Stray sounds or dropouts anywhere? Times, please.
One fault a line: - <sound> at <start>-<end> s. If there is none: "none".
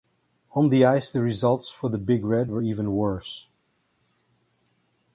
none